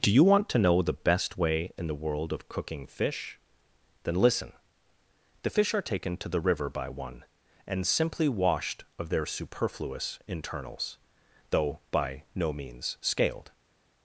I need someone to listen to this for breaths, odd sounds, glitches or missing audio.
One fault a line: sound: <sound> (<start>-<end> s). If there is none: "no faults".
no faults